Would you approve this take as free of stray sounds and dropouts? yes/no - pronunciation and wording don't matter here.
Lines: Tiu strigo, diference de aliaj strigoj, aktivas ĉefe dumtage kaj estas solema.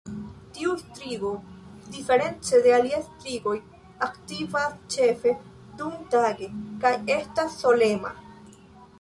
yes